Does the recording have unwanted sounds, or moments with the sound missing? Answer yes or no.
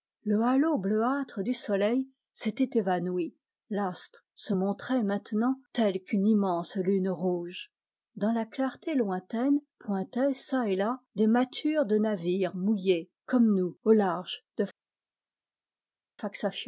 no